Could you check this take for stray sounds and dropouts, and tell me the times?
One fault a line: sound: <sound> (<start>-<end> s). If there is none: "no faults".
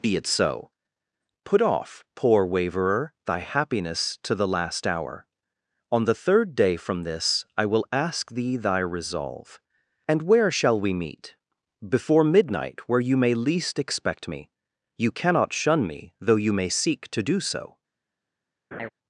sound: laugh (18.7-18.9 s)